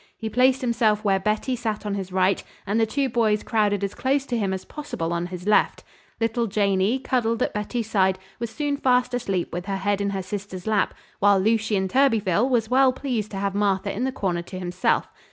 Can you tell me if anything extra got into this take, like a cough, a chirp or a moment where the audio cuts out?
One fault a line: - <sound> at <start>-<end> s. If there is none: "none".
none